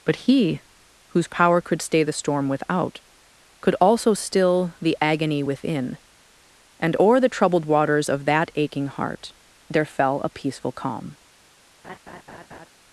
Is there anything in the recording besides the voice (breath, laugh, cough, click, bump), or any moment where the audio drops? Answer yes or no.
yes